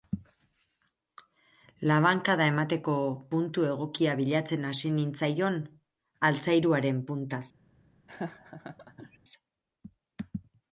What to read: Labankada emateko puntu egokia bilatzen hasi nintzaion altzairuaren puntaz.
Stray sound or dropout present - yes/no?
yes